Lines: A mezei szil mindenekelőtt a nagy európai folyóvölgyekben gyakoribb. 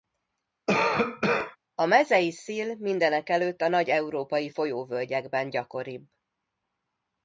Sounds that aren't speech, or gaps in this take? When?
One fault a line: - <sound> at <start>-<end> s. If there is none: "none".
- cough at 0.7-1.6 s